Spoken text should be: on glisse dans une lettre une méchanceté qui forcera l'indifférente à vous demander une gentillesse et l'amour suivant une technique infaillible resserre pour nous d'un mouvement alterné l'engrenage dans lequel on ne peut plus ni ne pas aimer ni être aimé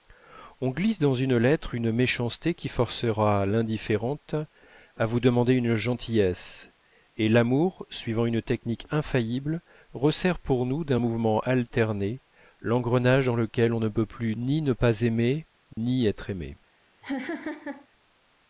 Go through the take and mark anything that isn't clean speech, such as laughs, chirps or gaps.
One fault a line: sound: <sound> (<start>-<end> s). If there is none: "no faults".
sound: dropout (15.7-15.8 s)
sound: laugh (17.0-17.9 s)